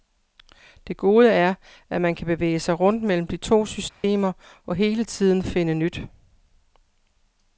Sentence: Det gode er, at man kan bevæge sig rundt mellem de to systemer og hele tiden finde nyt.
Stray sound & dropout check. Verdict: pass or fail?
fail